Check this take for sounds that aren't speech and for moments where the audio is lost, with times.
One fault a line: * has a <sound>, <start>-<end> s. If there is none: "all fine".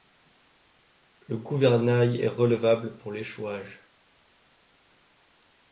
all fine